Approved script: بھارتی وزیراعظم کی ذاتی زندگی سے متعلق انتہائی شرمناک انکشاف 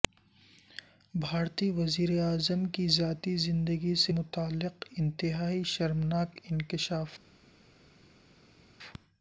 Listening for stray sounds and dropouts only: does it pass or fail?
pass